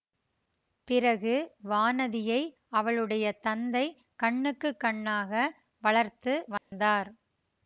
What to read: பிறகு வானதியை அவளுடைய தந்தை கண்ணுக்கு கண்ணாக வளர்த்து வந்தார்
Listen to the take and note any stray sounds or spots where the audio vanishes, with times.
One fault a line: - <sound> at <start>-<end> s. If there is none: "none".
- dropout at 6.6-6.7 s